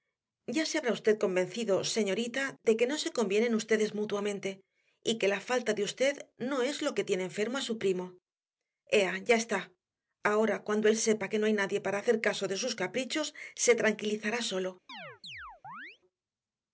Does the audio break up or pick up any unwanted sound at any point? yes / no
yes